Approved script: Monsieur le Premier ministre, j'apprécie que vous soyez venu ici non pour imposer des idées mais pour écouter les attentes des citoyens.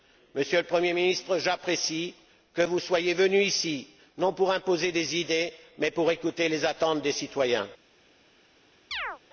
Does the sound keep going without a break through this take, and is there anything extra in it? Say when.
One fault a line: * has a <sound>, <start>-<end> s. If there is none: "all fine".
* has a chirp, 8.9-9.2 s